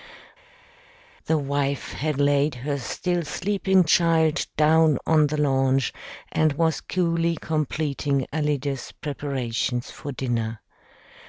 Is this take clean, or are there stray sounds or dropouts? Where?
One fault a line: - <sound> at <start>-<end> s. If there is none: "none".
none